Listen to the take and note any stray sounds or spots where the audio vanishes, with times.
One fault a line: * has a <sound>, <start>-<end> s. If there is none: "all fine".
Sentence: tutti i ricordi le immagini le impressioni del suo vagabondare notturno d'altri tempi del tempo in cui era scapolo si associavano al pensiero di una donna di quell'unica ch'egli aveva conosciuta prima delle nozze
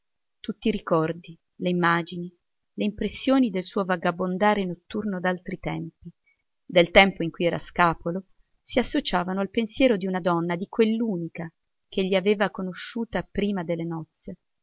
all fine